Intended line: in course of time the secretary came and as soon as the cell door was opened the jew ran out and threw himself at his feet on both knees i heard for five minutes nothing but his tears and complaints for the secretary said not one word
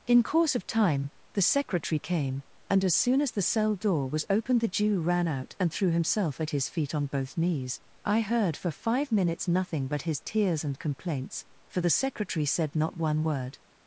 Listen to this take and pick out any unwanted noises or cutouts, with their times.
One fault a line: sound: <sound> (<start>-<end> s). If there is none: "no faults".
no faults